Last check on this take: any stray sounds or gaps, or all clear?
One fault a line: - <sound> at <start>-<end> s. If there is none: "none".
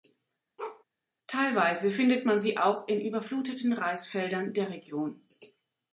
- bark at 0.6-0.8 s